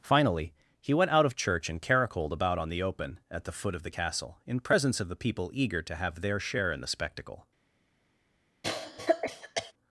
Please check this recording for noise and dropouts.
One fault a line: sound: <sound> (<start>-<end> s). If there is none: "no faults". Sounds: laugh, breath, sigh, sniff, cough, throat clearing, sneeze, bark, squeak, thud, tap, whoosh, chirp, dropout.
sound: cough (8.6-9.7 s)